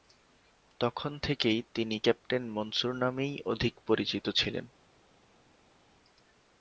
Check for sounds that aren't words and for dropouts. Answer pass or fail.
pass